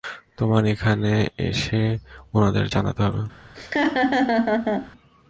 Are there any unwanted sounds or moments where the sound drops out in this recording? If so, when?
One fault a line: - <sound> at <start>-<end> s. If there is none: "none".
- laugh at 3.5-4.9 s